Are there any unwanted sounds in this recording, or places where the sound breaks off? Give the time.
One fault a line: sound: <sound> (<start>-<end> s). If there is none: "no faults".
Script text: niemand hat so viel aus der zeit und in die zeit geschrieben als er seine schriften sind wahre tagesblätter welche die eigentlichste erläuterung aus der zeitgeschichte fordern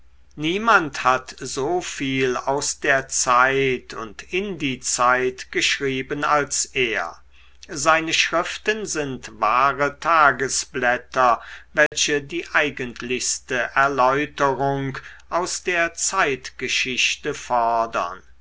sound: dropout (11.9-11.9 s)